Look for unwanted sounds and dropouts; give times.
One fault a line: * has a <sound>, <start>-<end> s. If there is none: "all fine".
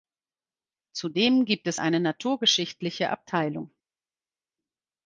all fine